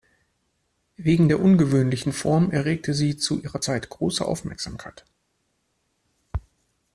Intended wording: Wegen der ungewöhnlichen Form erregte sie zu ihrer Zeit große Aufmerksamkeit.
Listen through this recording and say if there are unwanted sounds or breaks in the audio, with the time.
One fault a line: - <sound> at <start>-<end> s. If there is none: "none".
none